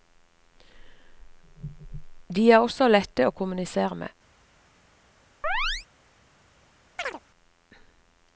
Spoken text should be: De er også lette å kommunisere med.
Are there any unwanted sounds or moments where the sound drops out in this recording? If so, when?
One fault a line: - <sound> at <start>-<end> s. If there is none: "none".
- chirp at 5.4-5.9 s
- chirp at 7.0-7.2 s